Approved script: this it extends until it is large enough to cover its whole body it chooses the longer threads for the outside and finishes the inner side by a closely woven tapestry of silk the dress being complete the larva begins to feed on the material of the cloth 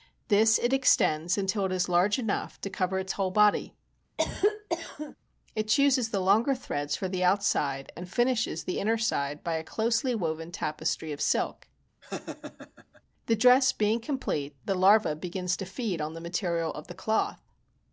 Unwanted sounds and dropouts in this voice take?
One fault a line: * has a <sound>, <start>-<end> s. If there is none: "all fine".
* has a cough, 4.2-5.2 s
* has a laugh, 12.0-13.0 s